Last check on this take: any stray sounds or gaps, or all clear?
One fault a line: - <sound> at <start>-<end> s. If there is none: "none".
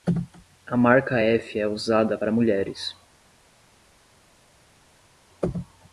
none